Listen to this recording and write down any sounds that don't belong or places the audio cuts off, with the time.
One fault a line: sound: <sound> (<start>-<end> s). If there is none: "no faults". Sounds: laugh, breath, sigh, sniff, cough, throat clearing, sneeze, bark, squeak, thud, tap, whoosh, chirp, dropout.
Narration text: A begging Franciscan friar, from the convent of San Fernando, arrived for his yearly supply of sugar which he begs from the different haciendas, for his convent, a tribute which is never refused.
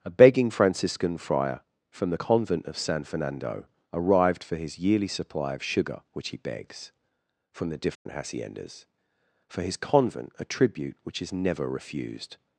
sound: dropout (7.9-8.1 s)